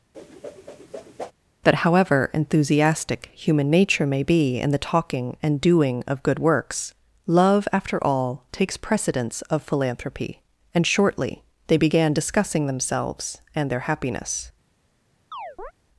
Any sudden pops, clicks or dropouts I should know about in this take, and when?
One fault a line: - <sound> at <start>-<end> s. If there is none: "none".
- whoosh at 0.1-1.3 s
- chirp at 15.3-15.7 s